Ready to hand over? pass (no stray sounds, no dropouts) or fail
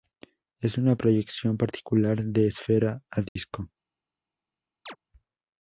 fail